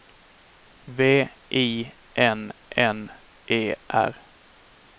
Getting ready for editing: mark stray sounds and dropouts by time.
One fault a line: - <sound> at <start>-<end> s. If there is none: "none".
none